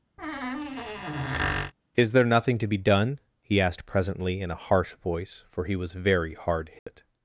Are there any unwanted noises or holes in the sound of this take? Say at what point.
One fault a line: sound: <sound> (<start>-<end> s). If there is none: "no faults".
sound: squeak (0.2-1.7 s)
sound: dropout (6.8-6.9 s)